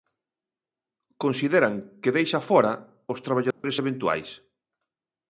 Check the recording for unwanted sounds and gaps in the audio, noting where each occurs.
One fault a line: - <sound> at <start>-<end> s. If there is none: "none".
- dropout at 3.5-3.6 s